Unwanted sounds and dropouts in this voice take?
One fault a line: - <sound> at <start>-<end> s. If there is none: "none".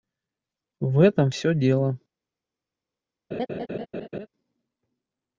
- laugh at 3.3-4.3 s